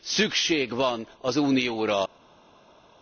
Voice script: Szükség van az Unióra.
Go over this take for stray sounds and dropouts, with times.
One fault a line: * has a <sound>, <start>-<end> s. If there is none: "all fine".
all fine